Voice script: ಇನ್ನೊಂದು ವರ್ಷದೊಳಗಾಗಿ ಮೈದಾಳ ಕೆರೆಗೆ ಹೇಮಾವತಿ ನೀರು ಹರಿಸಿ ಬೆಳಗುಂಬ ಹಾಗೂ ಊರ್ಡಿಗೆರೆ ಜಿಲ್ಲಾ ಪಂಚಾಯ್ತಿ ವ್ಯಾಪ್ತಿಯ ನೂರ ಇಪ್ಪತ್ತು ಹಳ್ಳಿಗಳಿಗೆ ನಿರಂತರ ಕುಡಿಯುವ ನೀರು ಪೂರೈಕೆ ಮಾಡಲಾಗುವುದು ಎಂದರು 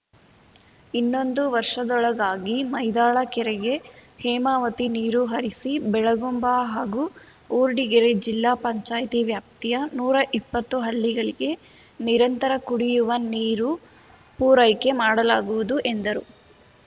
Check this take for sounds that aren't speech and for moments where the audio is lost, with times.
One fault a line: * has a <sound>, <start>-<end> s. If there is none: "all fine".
all fine